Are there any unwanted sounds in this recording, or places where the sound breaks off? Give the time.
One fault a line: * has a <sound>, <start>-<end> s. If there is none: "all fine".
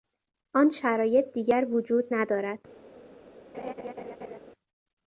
* has a laugh, 3.5-4.4 s